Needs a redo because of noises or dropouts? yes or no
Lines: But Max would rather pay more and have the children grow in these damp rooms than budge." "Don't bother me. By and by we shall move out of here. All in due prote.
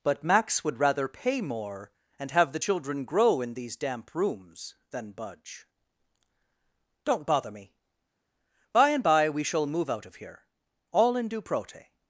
no